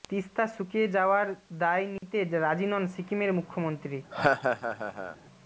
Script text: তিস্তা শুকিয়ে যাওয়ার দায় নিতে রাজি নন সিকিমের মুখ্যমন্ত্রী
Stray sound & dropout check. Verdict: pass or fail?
fail